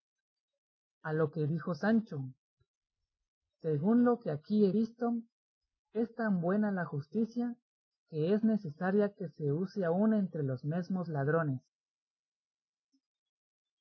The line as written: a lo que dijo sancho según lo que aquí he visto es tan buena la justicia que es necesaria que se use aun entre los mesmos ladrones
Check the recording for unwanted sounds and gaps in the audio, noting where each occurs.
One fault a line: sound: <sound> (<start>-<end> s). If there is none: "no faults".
no faults